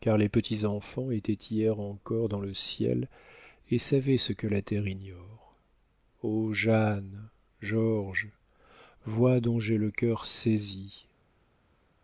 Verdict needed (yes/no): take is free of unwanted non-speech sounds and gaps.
yes